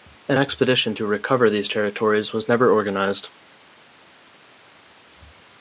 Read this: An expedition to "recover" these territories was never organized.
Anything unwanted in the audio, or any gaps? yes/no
no